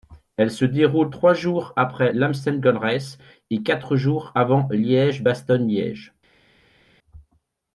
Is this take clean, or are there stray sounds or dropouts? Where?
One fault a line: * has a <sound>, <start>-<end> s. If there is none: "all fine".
all fine